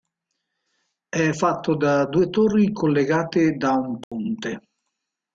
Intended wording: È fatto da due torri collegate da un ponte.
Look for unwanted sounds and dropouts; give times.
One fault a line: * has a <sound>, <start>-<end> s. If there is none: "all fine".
* has a dropout, 4.0-4.1 s